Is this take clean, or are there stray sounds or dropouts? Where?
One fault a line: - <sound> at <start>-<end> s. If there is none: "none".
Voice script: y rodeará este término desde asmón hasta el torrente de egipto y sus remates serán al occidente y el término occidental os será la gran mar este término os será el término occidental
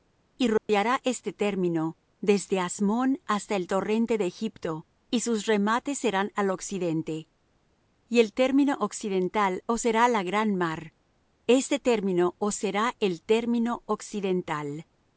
- dropout at 0.6-0.7 s